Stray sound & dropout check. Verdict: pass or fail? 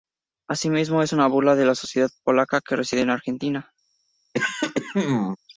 fail